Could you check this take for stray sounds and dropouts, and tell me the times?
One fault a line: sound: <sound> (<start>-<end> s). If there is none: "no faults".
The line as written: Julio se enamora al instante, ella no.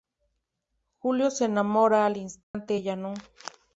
sound: dropout (2.4-2.5 s)